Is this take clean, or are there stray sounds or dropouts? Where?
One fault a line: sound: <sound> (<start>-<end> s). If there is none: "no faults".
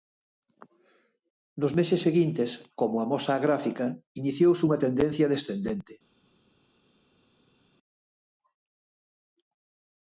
no faults